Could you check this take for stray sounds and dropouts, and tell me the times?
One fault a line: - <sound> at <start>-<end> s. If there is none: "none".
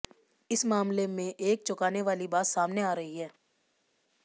none